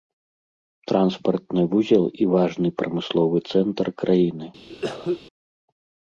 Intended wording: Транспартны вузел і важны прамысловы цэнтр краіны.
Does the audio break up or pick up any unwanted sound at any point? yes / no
yes